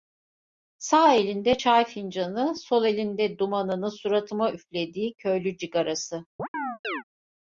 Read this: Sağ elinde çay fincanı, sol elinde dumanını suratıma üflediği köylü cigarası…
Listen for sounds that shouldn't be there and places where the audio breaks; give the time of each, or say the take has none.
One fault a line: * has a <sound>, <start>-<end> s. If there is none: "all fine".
* has a chirp, 6.4-7.0 s